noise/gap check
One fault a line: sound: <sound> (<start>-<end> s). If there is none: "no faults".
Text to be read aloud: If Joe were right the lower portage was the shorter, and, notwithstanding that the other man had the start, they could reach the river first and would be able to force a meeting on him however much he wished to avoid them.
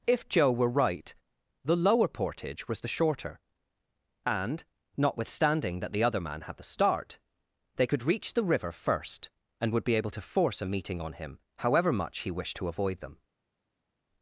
no faults